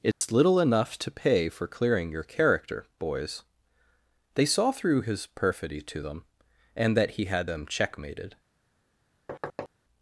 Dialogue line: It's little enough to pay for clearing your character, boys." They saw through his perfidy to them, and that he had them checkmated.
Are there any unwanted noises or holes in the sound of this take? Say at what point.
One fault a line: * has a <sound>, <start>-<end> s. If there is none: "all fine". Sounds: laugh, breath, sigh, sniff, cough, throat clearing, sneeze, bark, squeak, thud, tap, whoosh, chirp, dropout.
* has a dropout, 0.1-0.2 s
* has a thud, 9.3-9.7 s